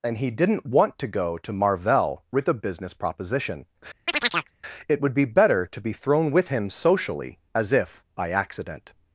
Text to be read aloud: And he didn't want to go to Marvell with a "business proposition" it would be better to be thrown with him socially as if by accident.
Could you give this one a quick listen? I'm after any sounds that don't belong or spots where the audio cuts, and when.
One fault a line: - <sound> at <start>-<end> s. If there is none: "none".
- chirp at 4.1-4.5 s